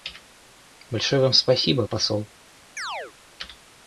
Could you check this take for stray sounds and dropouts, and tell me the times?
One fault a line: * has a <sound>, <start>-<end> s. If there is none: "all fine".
* has a chirp, 2.8-3.1 s